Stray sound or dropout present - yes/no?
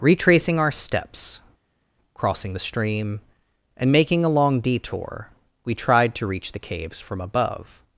no